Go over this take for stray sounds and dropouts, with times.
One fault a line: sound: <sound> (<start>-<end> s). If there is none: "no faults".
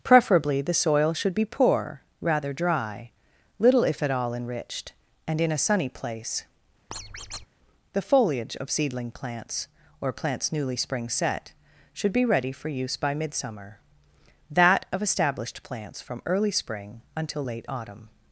sound: squeak (6.9-7.5 s)